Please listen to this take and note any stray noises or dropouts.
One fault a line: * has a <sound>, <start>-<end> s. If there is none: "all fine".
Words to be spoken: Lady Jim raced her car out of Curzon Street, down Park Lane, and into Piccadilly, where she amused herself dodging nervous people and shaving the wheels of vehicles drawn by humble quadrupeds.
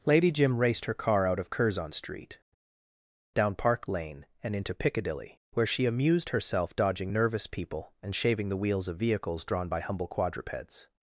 all fine